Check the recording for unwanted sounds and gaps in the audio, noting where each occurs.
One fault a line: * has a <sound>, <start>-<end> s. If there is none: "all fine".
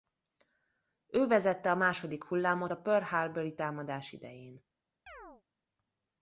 * has a chirp, 5.1-5.4 s